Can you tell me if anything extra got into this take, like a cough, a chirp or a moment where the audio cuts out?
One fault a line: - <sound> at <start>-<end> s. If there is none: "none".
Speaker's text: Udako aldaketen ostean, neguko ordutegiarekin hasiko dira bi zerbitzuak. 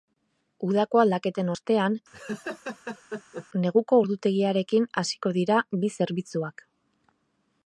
- laugh at 2.1-3.5 s